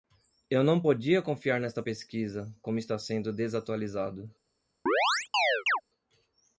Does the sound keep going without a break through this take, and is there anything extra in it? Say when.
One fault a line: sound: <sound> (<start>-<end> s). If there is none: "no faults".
sound: chirp (4.9-5.8 s)